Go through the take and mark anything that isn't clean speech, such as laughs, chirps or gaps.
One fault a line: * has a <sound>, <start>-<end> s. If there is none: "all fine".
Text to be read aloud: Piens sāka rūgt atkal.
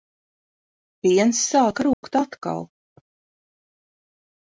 * has a dropout, 1.9-2.0 s